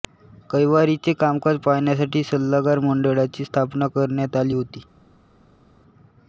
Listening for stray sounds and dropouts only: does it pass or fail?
pass